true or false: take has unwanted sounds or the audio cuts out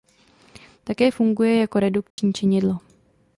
true